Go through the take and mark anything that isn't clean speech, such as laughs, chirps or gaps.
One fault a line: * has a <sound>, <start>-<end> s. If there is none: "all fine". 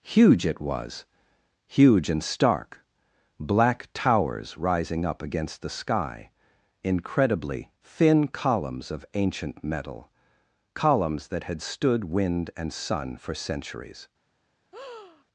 * has a breath, 14.7-15.2 s